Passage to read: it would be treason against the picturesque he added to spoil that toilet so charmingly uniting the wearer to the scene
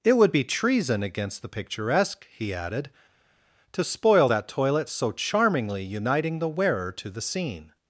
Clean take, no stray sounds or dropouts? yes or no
yes